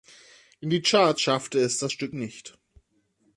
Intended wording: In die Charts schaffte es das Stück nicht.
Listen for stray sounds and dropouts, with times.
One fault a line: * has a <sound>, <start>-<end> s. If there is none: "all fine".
all fine